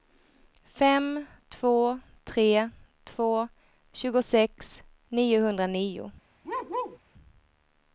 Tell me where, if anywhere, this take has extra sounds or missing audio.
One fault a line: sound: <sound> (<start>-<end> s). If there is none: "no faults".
sound: bark (6.4-7.0 s)